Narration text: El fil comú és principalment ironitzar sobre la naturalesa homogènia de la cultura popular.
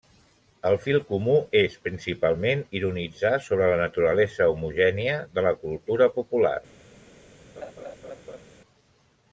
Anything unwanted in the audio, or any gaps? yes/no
yes